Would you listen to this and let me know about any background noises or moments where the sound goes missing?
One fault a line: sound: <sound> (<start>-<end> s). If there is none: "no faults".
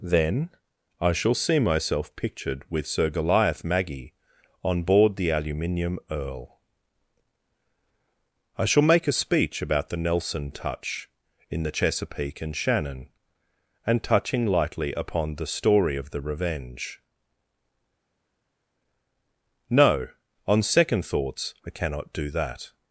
no faults